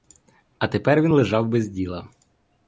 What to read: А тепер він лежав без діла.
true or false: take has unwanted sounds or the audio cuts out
false